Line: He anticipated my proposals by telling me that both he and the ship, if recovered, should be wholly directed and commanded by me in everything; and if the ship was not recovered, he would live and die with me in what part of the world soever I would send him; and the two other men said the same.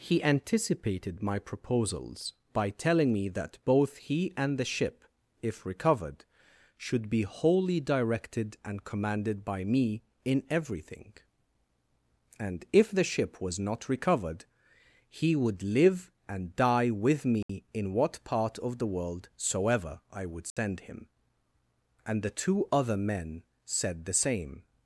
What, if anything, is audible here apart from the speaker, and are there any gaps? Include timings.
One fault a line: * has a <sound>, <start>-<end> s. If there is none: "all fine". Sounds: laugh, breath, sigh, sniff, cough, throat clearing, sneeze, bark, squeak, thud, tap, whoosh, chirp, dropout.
* has a dropout, 17.4-17.5 s
* has a dropout, 20.5-20.6 s